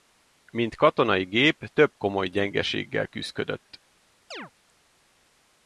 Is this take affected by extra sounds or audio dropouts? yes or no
yes